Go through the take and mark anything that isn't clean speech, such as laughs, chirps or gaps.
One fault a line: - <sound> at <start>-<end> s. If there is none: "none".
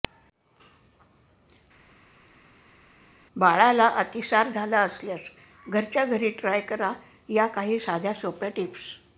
none